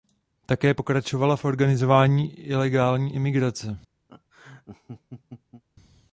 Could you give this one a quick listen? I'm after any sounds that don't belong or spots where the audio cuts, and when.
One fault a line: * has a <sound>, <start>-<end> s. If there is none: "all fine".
* has a laugh, 4.1-5.6 s